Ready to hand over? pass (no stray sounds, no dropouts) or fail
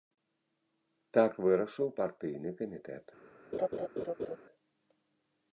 fail